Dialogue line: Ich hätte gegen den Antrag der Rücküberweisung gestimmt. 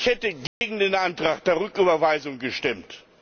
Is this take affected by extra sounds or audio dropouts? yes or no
yes